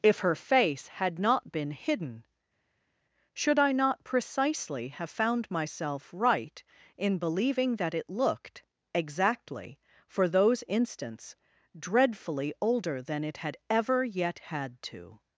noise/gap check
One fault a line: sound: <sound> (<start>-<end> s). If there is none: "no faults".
no faults